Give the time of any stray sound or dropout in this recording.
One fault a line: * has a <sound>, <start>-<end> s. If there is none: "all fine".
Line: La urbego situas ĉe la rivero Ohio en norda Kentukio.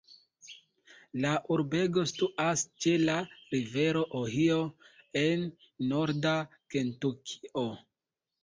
all fine